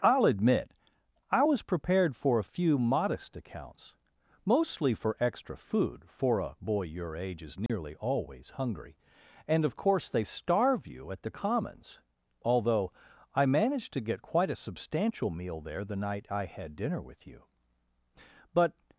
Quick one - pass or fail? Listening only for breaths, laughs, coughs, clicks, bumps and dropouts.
fail